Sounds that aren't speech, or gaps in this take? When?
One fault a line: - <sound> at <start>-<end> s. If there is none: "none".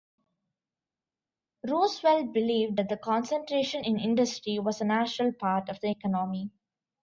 none